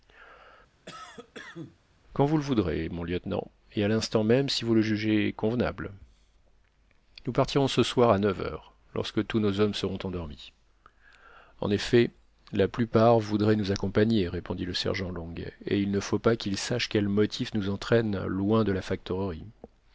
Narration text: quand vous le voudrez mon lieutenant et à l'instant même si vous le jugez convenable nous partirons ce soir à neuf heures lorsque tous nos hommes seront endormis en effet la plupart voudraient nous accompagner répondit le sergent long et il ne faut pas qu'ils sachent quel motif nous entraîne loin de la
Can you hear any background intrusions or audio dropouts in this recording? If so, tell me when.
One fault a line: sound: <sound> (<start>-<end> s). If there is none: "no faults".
sound: cough (0.9-1.8 s)